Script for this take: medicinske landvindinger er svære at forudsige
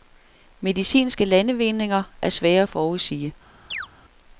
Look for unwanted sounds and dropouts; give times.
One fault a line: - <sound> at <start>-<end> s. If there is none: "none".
- chirp at 3.7-3.9 s